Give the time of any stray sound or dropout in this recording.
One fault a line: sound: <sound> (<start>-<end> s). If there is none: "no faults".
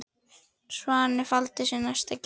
no faults